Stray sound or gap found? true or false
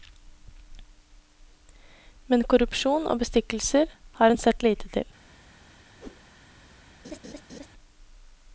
true